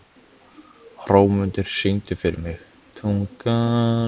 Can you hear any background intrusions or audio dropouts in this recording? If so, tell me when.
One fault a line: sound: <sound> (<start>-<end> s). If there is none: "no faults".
no faults